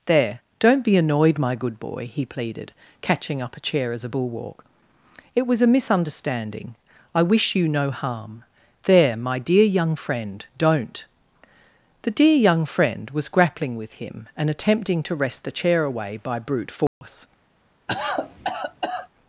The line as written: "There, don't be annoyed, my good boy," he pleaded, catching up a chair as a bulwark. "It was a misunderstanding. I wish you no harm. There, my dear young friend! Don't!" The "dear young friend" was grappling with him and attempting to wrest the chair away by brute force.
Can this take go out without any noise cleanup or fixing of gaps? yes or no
no